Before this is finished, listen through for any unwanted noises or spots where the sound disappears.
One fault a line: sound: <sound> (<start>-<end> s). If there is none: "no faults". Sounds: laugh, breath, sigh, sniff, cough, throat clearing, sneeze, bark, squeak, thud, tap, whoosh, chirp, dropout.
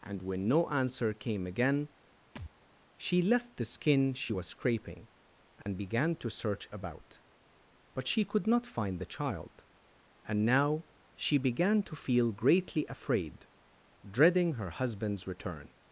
sound: thud (2.4-2.5 s)
sound: dropout (5.6-5.7 s)